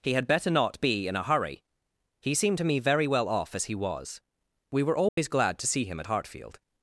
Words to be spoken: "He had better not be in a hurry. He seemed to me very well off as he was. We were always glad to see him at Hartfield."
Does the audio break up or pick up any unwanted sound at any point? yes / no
yes